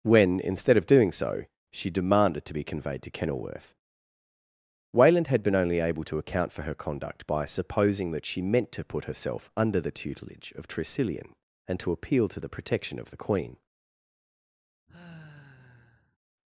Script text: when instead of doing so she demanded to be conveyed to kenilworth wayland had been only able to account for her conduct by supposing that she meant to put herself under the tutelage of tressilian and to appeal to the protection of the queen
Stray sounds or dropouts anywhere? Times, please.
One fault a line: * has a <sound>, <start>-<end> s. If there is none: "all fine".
* has a sigh, 14.9-16.2 s